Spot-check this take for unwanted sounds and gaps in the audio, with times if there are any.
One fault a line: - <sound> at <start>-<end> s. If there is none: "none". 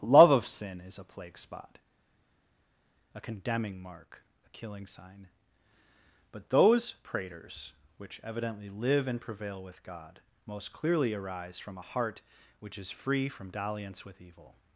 none